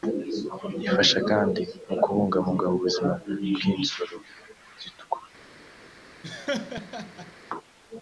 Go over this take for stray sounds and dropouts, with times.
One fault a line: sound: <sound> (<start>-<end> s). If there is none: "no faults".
sound: laugh (6.2-7.3 s)